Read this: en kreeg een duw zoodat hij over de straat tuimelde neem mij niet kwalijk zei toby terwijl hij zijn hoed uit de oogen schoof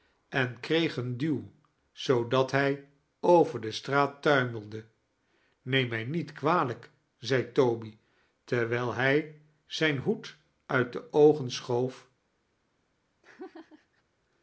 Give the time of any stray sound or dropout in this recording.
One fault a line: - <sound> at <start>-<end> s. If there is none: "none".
- laugh at 13.2-14.0 s